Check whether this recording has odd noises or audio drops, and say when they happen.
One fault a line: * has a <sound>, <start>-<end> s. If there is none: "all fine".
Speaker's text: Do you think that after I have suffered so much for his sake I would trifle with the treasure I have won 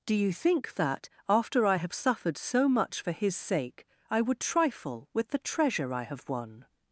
all fine